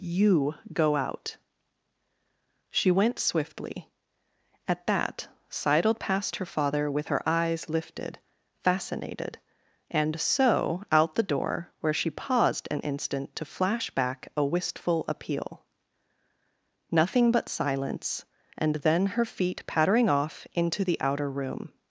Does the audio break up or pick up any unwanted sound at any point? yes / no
no